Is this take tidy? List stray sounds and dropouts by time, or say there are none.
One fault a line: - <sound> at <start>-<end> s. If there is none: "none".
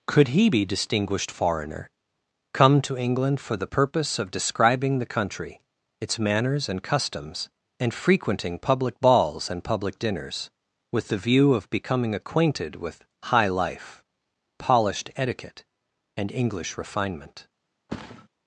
- thud at 17.9-18.3 s